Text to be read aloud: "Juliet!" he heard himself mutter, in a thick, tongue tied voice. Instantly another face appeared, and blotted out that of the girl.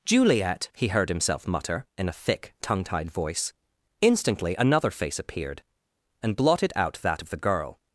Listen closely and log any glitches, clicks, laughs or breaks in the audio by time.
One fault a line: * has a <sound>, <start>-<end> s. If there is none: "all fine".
all fine